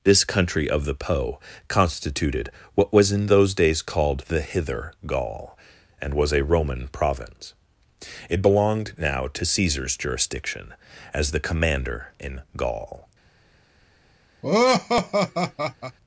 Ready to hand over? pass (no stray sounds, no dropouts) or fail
fail